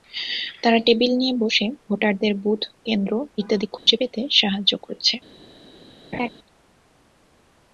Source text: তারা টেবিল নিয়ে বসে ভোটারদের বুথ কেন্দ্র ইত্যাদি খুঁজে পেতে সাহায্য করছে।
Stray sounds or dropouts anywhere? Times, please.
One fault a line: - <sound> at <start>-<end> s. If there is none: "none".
- dropout at 3.8-3.9 s
- laugh at 6.1-6.3 s